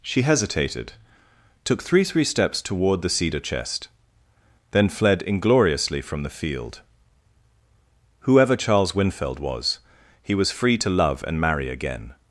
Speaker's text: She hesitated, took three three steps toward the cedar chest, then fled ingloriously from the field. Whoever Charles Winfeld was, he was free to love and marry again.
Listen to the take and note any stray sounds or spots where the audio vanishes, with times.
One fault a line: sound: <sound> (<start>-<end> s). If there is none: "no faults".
no faults